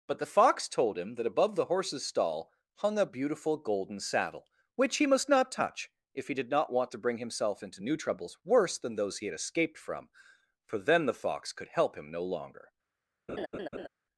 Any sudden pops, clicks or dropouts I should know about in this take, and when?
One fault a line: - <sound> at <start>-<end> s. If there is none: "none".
- laugh at 13.3-13.9 s